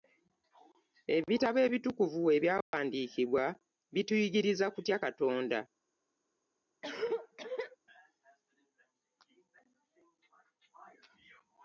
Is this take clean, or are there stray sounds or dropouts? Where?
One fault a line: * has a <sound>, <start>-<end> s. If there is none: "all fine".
* has a dropout, 2.6-2.7 s
* has a cough, 6.8-7.8 s